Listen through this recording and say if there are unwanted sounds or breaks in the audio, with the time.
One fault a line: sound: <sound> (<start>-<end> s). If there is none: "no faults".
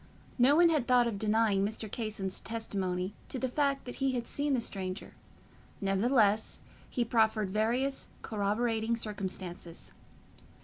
no faults